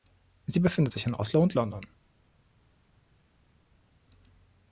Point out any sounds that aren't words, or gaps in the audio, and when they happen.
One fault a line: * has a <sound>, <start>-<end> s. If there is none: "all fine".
all fine